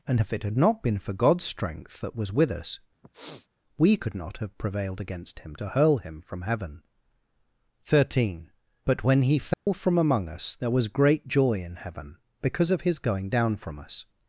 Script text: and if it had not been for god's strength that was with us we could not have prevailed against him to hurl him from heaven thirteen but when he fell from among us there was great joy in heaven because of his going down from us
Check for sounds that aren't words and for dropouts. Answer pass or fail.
fail